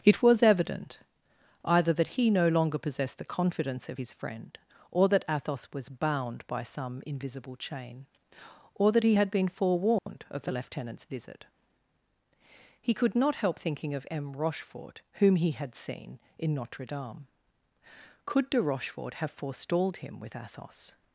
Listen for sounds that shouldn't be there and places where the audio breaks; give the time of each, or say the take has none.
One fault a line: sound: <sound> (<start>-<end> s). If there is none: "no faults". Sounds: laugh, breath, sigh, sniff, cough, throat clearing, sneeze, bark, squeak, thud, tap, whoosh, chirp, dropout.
sound: dropout (10.0-10.1 s)